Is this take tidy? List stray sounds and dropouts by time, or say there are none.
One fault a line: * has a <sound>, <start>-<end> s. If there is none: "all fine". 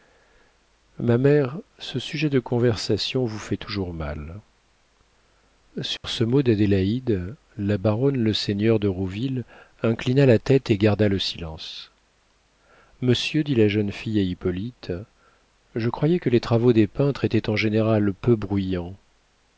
* has a dropout, 6.0-6.0 s